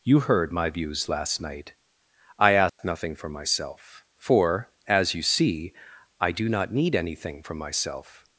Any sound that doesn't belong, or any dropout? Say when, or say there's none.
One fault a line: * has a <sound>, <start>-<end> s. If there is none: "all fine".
* has a dropout, 2.7-2.8 s